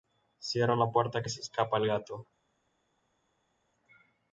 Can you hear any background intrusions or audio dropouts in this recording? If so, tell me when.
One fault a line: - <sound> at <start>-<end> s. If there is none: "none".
none